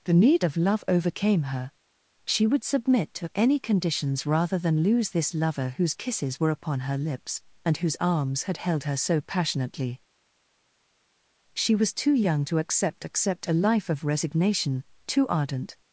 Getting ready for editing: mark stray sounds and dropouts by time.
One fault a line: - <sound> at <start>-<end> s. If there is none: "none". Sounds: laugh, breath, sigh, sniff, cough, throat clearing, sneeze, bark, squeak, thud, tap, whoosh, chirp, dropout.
none